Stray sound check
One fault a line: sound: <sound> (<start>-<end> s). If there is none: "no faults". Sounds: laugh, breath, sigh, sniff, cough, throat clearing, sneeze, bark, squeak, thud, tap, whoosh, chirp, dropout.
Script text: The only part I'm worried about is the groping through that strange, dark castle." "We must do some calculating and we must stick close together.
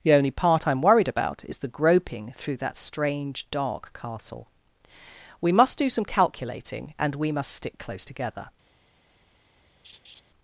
sound: laugh (9.8-10.2 s)